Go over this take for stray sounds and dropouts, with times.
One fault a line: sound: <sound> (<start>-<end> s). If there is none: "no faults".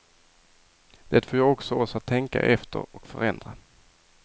no faults